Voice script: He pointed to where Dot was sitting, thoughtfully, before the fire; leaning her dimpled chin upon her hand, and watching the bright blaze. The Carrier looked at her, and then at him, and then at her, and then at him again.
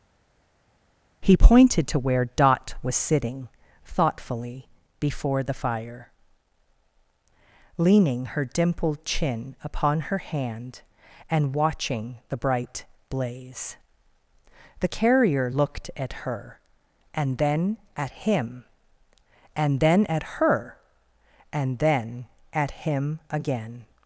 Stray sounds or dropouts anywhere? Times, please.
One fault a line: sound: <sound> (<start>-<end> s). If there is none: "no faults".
no faults